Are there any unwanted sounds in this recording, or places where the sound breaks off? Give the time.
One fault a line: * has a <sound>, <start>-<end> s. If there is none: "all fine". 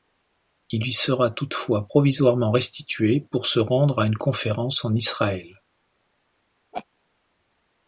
* has a laugh, 6.7-6.9 s